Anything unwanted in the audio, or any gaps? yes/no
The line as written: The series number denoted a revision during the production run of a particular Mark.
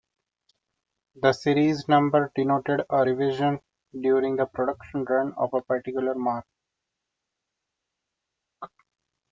no